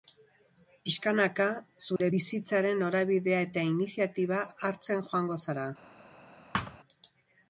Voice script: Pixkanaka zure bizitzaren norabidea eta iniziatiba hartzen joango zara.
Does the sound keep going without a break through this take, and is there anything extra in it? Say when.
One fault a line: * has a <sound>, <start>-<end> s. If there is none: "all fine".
* has a dropout, 2.0-2.0 s
* has a thud, 6.5-6.8 s